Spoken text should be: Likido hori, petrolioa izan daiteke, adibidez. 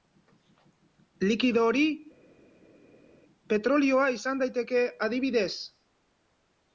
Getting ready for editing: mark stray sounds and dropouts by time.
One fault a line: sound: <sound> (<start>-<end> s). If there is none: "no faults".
no faults